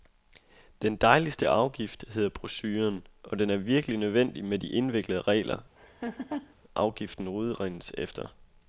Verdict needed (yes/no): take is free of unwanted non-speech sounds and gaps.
no